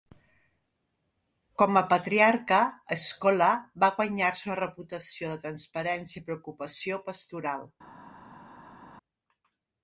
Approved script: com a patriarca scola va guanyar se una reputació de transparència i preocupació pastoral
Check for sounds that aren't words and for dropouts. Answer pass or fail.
pass